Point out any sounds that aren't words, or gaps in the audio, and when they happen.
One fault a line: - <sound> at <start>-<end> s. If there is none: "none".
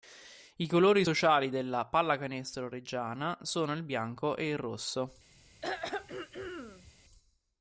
- throat clearing at 5.6-6.9 s